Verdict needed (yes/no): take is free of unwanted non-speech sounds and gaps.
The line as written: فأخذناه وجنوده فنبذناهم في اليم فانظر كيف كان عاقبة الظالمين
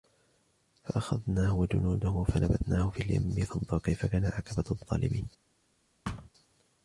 no